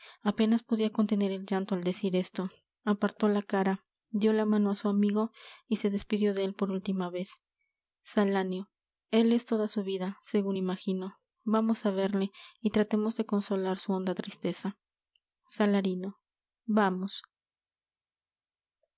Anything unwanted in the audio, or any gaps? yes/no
no